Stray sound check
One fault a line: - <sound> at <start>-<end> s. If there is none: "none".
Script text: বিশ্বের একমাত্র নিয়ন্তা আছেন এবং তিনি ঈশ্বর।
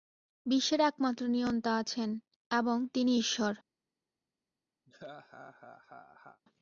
- laugh at 4.9-6.4 s